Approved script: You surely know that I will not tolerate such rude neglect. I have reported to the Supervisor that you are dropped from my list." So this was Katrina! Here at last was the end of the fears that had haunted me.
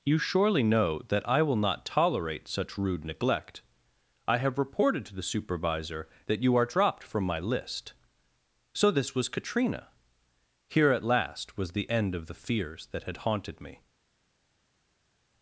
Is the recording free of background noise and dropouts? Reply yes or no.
yes